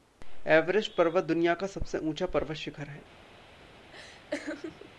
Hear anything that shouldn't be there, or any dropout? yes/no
yes